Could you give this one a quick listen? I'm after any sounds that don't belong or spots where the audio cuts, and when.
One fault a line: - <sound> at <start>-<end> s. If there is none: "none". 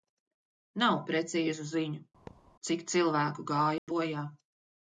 - thud at 2.3-2.6 s
- dropout at 3.8-3.9 s